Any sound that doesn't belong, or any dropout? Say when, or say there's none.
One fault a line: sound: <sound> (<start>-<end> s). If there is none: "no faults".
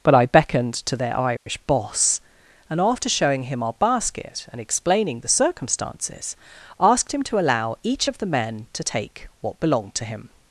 sound: dropout (1.4-1.5 s)